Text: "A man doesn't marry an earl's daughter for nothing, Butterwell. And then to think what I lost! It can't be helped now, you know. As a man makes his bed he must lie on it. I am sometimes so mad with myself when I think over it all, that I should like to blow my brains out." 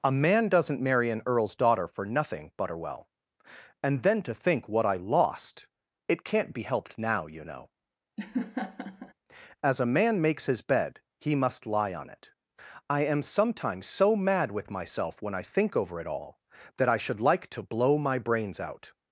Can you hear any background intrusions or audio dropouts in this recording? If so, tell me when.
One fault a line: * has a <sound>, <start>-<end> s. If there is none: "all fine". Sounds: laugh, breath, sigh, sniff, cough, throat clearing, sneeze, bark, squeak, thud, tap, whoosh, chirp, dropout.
* has a laugh, 8.2-9.1 s